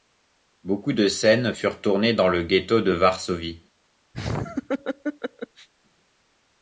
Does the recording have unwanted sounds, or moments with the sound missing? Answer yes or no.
yes